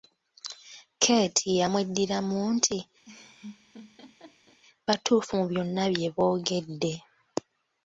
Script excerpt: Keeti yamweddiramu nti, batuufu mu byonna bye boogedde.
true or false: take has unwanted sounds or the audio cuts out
true